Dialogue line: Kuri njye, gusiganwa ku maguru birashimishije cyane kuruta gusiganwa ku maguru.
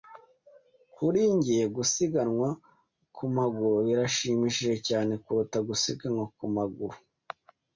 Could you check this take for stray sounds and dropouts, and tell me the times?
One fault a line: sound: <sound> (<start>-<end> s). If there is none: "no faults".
no faults